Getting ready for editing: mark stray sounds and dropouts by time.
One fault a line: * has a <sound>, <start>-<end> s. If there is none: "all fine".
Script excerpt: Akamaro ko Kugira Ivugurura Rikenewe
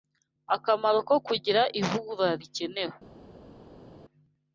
all fine